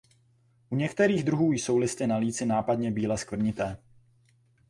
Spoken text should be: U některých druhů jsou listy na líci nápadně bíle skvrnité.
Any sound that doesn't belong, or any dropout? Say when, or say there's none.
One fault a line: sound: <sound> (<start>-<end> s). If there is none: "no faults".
no faults